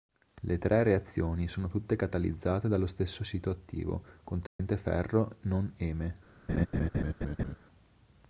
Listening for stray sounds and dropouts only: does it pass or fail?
fail